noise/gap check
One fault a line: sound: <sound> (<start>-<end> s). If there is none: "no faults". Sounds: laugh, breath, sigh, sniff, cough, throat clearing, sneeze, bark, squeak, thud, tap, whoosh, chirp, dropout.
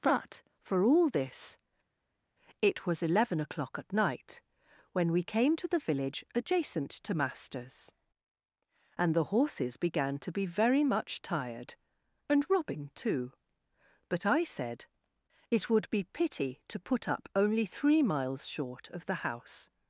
no faults